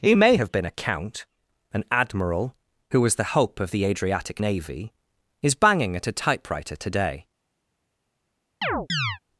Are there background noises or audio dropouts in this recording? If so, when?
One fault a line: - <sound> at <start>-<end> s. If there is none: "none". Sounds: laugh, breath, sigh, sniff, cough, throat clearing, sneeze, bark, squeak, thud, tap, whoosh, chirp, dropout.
- chirp at 8.6-9.2 s